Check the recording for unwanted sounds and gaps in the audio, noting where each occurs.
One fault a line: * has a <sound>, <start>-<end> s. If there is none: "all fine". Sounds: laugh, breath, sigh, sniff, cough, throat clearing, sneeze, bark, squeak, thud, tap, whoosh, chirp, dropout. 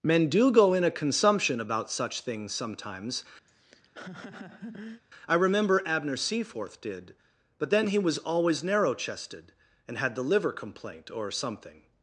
* has a laugh, 3.5-5.0 s